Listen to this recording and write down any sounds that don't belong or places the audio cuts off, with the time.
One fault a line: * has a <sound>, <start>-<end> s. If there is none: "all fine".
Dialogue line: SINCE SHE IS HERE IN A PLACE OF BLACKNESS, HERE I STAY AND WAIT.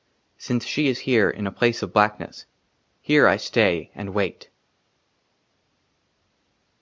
all fine